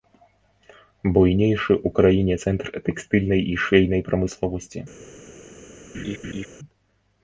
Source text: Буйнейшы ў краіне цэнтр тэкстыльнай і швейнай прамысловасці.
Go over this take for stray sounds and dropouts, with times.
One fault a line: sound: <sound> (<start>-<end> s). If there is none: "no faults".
sound: laugh (5.9-6.5 s)